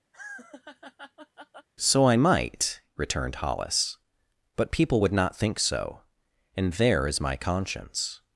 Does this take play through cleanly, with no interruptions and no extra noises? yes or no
no